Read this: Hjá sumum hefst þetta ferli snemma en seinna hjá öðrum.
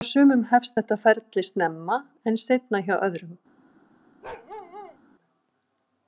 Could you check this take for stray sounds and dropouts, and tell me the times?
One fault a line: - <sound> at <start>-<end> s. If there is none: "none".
- bark at 4.2-5.0 s